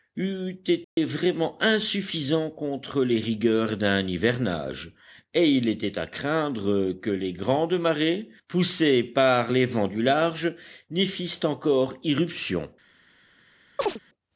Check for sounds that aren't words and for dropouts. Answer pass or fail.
fail